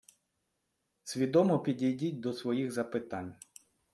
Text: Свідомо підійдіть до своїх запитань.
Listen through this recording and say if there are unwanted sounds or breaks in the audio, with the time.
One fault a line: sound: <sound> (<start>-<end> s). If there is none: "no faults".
no faults